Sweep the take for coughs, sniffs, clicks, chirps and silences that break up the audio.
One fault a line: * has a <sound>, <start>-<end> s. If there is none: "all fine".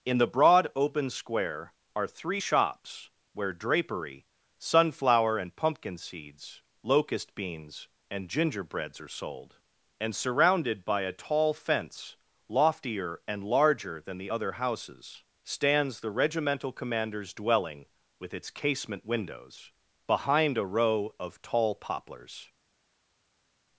all fine